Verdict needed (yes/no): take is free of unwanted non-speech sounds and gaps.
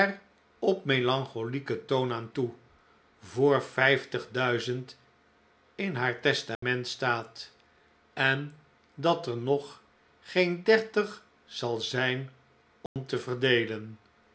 no